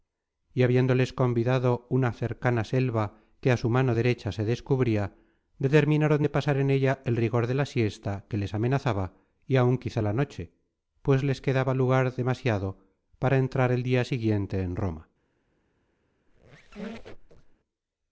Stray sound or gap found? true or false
true